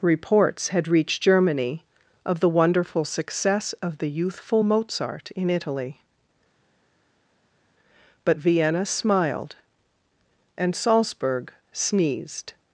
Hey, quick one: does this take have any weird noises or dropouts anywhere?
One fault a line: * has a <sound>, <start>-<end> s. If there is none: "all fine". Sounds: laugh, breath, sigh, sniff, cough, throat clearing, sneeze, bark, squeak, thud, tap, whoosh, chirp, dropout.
all fine